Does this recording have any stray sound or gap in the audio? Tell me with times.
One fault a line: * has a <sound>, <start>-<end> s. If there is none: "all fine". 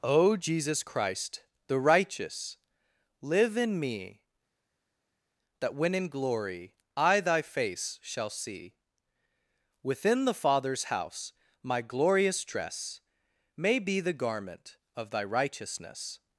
all fine